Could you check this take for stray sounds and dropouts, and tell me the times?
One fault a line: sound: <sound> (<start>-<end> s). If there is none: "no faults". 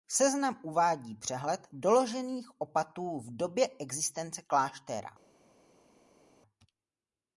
no faults